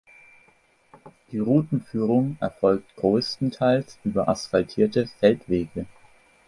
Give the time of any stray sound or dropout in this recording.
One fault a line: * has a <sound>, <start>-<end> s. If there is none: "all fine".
all fine